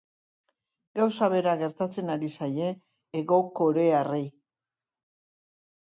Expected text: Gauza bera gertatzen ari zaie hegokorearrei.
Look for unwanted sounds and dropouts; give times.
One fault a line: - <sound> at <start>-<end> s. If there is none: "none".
none